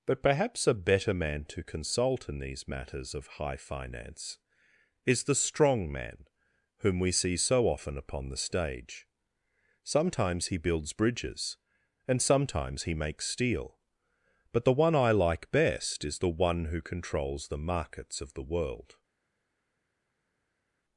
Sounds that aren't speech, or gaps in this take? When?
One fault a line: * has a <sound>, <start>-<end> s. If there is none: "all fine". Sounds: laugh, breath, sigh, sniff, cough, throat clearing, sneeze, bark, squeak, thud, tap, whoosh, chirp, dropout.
all fine